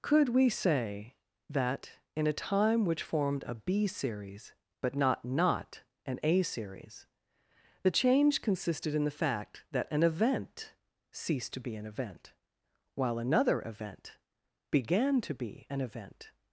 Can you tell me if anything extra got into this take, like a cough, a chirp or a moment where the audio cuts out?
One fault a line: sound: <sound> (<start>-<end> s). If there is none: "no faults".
no faults